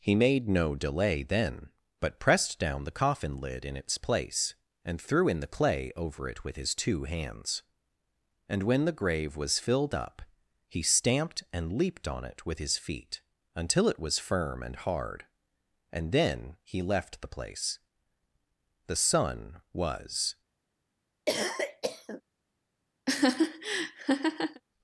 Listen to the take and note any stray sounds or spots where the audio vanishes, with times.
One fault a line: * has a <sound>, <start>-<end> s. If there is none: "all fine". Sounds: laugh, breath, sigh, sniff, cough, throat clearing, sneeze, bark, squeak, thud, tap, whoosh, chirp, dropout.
* has a cough, 21.3-22.2 s
* has a laugh, 23.1-24.6 s